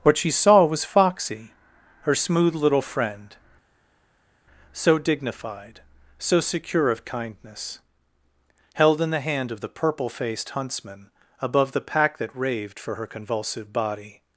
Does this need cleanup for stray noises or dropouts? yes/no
no